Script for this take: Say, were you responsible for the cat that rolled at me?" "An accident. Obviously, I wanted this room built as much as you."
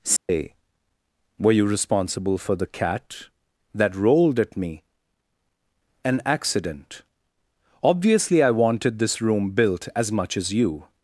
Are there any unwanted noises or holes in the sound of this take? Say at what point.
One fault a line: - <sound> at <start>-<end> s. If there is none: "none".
- dropout at 0.2-0.3 s